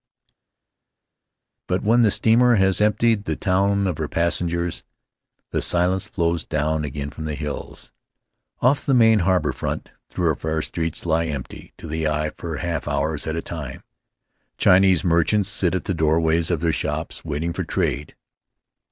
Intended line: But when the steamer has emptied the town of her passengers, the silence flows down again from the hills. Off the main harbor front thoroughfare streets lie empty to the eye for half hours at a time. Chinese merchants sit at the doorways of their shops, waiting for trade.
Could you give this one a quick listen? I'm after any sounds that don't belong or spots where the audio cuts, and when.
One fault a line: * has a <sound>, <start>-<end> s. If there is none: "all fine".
all fine